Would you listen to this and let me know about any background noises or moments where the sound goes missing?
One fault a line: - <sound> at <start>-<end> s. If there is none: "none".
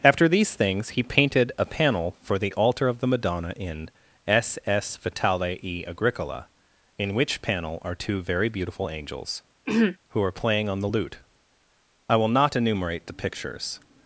- throat clearing at 9.7-10.0 s